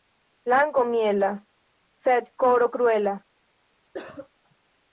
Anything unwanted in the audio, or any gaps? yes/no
yes